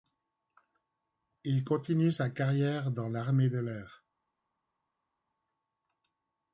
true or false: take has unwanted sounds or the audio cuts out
false